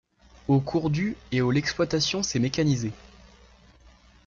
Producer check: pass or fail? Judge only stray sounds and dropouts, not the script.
pass